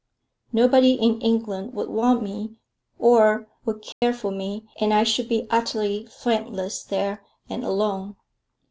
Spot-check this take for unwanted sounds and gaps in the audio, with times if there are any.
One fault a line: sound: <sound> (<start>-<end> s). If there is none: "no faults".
sound: dropout (3.9-4.0 s)